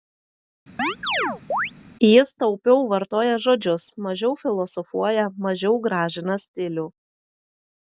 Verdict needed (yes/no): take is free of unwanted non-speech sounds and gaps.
no